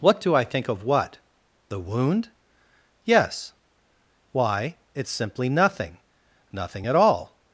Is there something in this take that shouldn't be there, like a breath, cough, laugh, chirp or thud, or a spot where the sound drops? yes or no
no